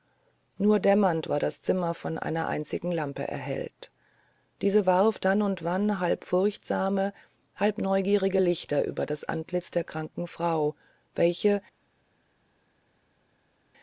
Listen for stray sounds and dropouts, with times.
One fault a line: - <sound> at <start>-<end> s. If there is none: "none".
none